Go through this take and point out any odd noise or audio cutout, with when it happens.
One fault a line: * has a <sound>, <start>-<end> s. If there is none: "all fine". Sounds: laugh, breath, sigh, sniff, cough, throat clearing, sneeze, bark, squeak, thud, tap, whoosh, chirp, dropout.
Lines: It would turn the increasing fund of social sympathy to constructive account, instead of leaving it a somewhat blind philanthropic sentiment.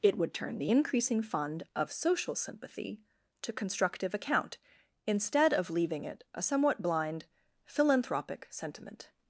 all fine